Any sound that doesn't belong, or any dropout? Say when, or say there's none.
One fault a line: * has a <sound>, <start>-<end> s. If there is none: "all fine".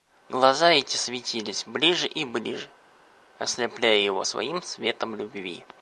all fine